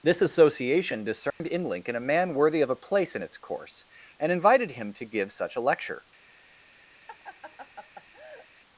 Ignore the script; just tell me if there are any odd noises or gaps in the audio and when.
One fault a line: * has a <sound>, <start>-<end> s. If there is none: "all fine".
* has a dropout, 1.3-1.4 s
* has a laugh, 7.1-8.5 s